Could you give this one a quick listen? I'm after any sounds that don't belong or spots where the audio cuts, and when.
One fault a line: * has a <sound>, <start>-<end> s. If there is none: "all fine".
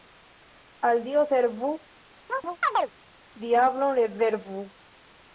* has a chirp, 2.3-2.9 s